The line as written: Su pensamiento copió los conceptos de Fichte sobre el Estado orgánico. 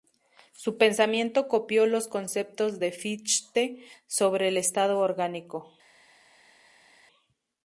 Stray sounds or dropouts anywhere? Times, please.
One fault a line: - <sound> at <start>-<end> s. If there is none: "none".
none